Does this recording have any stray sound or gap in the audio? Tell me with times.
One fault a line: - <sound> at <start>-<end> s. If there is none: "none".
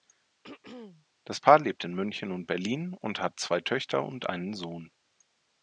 - throat clearing at 0.4-1.1 s